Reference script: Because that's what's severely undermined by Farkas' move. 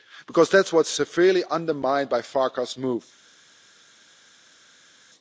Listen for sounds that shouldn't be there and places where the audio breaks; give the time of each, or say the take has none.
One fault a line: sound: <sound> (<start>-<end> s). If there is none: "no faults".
no faults